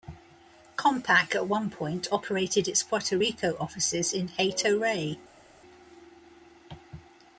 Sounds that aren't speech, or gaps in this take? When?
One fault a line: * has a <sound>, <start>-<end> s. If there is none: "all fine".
all fine